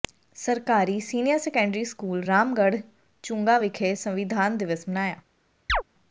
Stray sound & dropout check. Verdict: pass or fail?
fail